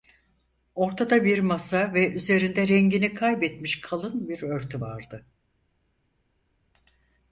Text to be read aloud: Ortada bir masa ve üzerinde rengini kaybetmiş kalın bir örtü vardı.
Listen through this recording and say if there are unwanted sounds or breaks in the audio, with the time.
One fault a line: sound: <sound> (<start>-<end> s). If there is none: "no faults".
no faults